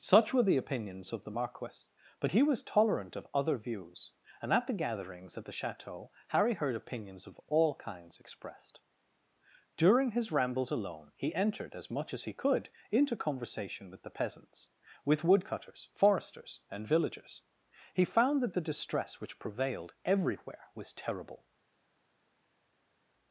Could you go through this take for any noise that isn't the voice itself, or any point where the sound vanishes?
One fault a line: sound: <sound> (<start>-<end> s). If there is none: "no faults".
no faults